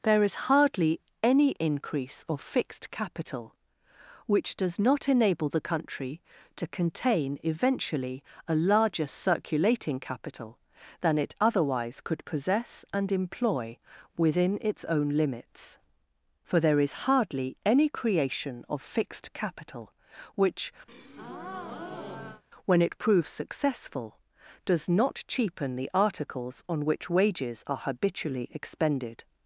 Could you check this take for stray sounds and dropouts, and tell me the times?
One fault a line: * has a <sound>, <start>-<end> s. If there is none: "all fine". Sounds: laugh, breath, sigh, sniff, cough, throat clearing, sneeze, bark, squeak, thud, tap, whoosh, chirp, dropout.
* has a breath, 20.9-22.4 s